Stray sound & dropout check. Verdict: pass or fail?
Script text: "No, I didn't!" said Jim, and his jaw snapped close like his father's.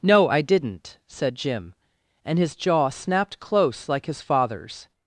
pass